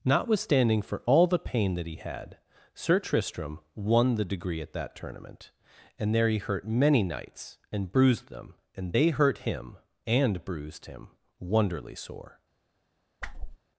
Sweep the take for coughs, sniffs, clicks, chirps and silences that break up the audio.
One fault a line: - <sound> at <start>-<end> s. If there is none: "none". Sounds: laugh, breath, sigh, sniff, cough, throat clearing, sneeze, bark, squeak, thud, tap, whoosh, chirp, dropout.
- whoosh at 13.2-13.6 s